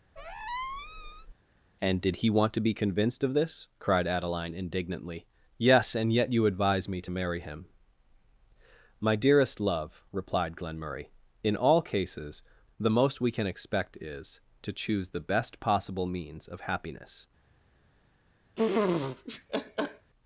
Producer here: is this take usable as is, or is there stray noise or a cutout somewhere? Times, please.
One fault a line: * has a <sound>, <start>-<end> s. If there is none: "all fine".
* has a squeak, 0.2-1.3 s
* has a laugh, 18.6-20.1 s